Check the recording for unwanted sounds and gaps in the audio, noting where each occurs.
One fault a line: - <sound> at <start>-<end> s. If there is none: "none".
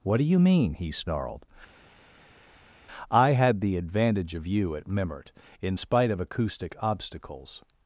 none